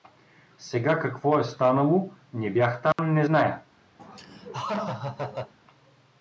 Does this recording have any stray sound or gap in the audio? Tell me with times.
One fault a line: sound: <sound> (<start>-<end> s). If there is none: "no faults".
sound: dropout (2.9-3.0 s)
sound: laugh (4.0-5.5 s)